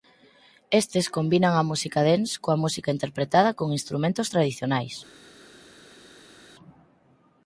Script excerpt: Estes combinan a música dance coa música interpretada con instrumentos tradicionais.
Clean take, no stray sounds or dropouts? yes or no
yes